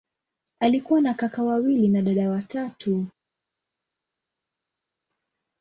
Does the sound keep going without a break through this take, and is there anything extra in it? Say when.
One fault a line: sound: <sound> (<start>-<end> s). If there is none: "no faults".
no faults